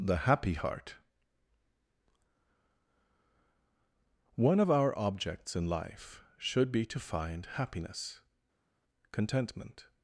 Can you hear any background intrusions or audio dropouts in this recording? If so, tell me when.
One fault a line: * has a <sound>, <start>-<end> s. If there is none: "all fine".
all fine